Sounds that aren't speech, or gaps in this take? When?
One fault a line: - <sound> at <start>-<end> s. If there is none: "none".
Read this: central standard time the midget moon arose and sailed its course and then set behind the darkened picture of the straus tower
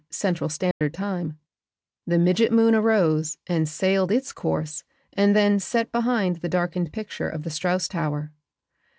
- dropout at 0.7-0.8 s